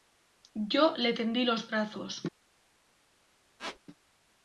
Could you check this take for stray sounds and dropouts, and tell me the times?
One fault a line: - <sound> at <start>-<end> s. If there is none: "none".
- squeak at 3.6-3.8 s